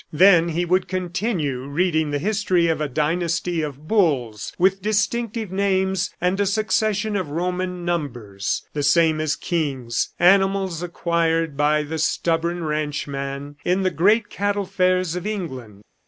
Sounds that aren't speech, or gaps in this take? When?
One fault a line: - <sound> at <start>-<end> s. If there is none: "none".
none